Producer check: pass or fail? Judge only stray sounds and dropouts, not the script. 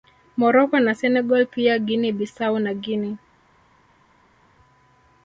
pass